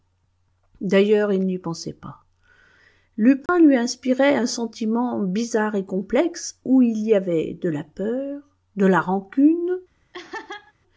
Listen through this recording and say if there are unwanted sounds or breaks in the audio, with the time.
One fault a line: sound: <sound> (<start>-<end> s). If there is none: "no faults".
sound: dropout (3.5-3.5 s)
sound: laugh (10.1-10.7 s)